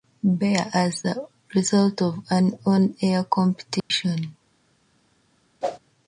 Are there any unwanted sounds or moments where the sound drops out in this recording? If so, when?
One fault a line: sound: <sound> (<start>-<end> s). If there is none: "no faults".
sound: dropout (3.8-3.9 s)
sound: whoosh (5.6-5.8 s)